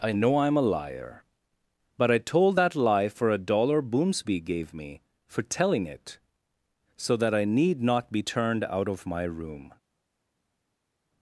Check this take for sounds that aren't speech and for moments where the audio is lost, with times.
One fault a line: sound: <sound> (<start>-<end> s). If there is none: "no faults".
no faults